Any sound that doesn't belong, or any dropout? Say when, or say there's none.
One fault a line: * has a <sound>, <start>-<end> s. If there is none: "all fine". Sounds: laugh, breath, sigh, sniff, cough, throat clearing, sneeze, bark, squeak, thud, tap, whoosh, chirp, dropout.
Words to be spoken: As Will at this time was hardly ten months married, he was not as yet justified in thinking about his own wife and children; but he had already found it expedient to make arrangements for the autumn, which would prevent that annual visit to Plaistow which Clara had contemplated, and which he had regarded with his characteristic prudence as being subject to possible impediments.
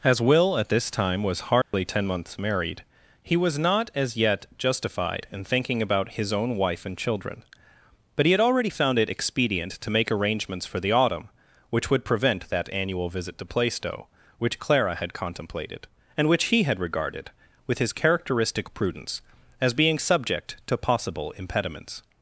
* has a dropout, 1.6-1.7 s